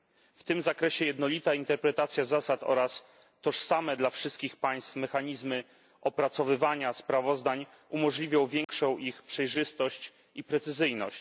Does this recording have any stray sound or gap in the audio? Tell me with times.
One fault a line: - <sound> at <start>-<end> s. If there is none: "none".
- dropout at 8.6-8.7 s